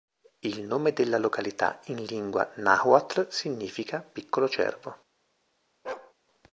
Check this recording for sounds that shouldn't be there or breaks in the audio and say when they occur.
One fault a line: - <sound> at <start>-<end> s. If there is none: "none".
- bark at 5.8-6.1 s